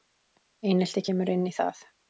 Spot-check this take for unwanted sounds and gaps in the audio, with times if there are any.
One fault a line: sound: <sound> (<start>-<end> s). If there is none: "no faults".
no faults